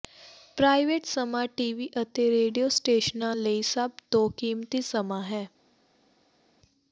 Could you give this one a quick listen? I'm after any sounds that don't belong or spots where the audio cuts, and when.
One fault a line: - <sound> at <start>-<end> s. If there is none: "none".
none